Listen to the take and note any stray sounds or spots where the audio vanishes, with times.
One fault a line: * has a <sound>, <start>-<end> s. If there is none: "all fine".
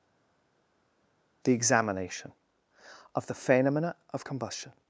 all fine